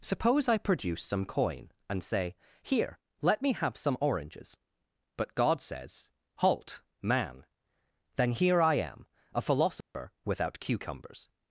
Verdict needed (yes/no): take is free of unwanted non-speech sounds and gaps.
no